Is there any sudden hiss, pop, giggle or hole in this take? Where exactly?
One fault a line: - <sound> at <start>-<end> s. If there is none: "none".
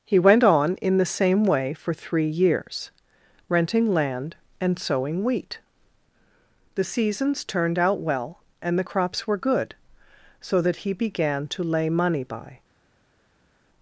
none